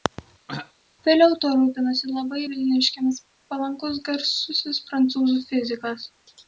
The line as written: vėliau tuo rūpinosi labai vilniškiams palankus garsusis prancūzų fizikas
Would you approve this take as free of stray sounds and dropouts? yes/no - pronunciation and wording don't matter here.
no